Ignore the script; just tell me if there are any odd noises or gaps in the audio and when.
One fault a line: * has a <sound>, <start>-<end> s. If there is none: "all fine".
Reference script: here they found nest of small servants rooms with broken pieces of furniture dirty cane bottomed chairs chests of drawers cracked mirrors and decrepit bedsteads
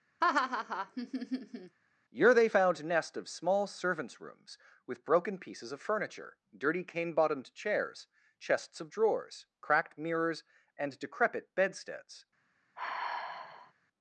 * has a laugh, 0.2-1.8 s
* has a sigh, 12.8-13.7 s